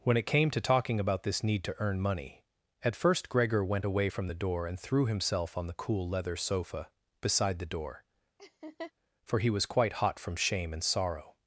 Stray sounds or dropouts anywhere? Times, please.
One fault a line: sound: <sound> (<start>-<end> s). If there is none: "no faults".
sound: laugh (8.4-8.9 s)